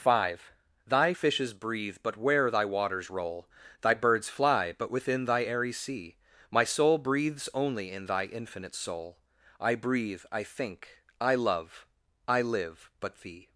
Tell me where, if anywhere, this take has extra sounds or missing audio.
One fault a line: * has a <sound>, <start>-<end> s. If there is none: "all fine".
all fine